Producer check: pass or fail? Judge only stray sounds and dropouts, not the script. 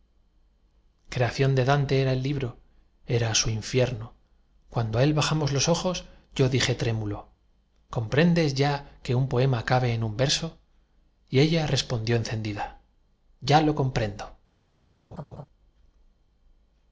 fail